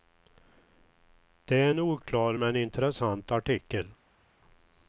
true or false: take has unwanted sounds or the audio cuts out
false